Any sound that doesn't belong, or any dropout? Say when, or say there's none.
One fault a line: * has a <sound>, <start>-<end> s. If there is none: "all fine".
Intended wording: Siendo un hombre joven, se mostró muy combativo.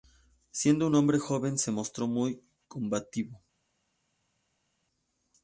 all fine